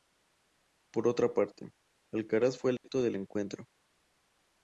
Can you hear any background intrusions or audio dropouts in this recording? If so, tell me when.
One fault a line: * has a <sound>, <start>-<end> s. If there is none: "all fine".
* has a dropout, 2.8-2.8 s